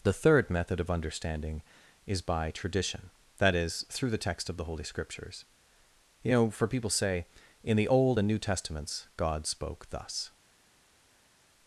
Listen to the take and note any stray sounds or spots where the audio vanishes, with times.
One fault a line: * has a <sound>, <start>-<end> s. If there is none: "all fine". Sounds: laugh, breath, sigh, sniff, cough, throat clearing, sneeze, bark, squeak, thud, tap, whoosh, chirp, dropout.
all fine